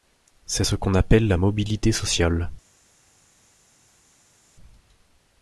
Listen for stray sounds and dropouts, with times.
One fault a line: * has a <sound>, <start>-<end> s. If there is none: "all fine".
all fine